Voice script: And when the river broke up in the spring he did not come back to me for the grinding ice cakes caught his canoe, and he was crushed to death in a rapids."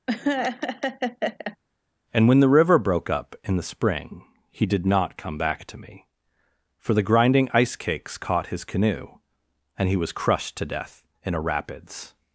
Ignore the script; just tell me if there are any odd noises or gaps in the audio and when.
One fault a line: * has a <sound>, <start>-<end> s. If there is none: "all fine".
* has a laugh, 0.1-1.6 s